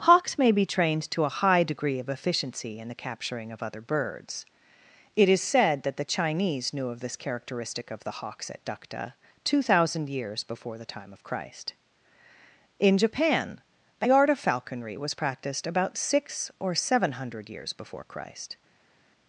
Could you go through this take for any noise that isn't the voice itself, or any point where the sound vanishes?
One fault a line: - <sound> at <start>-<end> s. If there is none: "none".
none